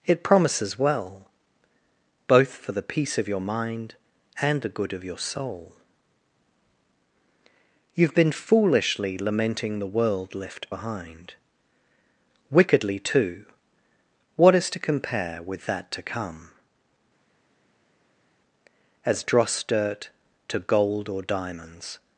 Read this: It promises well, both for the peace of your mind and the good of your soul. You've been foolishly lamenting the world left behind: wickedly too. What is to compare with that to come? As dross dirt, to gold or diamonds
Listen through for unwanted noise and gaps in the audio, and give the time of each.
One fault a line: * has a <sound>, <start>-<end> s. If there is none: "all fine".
all fine